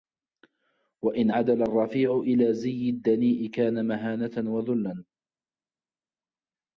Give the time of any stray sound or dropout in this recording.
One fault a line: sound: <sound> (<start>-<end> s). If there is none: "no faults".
no faults